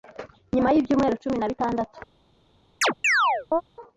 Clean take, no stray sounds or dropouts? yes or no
no